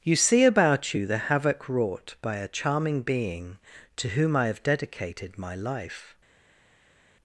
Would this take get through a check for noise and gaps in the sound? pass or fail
pass